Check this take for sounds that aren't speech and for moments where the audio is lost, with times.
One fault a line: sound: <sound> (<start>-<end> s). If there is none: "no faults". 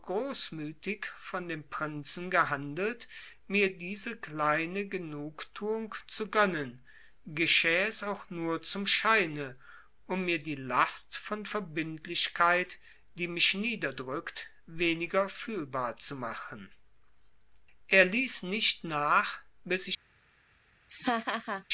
sound: laugh (20.9-21.6 s)